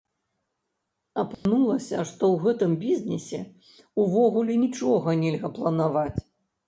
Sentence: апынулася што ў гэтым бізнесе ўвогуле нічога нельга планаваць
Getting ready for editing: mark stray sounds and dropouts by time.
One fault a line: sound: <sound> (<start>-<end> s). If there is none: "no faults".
sound: dropout (1.3-1.5 s)